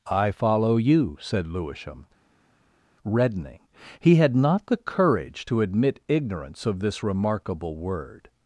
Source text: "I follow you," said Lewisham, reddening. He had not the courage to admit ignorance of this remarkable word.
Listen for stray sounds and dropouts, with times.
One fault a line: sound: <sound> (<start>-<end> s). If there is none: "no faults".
no faults